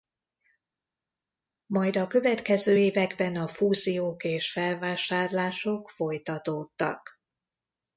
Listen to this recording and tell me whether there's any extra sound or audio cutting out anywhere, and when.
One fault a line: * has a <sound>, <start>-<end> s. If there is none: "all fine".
all fine